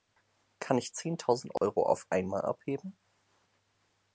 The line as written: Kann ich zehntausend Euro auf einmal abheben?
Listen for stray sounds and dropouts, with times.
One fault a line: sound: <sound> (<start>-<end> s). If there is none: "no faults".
sound: dropout (1.6-1.6 s)